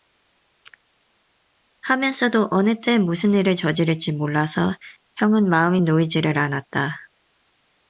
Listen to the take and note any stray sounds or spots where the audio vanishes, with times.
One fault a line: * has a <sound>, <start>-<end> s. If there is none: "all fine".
all fine